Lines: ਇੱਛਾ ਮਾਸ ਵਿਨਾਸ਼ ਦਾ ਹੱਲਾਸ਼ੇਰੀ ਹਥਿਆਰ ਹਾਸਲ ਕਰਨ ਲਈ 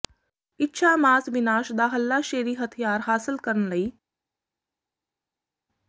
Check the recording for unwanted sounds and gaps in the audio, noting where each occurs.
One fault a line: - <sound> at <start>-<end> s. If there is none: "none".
none